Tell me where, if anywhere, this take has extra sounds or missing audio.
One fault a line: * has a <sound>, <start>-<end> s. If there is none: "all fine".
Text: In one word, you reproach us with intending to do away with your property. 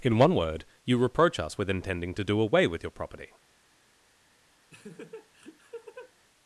* has a laugh, 4.7-6.1 s